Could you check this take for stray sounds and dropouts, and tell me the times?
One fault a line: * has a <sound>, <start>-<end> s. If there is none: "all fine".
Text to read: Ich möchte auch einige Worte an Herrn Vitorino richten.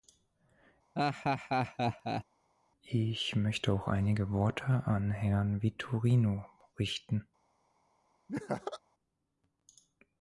* has a laugh, 1.0-2.2 s
* has a laugh, 8.3-8.8 s